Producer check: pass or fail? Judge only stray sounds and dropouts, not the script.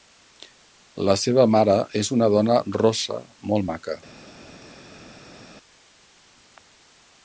pass